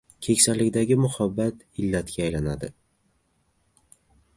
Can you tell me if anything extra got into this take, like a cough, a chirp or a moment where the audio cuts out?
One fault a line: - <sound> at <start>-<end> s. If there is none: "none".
none